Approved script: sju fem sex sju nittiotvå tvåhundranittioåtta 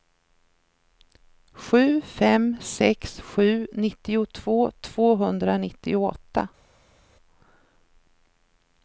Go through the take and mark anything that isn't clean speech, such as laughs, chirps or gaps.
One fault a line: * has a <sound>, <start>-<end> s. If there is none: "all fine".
all fine